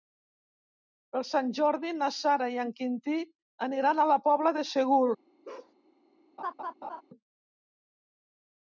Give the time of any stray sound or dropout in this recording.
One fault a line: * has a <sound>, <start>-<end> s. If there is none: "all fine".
* has a bark, 5.4-5.7 s
* has a laugh, 6.4-7.0 s